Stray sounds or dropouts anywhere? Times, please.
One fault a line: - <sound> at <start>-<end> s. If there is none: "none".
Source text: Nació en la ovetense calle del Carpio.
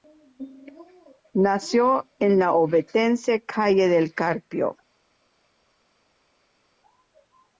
none